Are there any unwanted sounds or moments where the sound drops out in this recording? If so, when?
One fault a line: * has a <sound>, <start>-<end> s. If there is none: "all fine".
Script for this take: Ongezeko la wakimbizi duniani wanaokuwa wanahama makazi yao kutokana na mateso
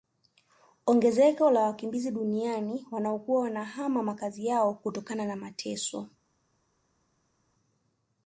all fine